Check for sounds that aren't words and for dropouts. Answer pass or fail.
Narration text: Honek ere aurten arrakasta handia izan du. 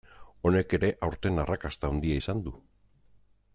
pass